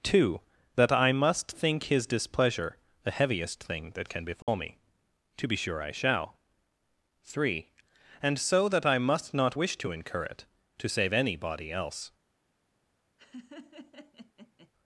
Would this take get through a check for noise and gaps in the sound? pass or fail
fail